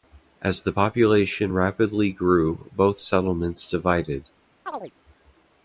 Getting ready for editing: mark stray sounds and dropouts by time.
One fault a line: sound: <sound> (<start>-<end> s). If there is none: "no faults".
sound: chirp (4.7-4.9 s)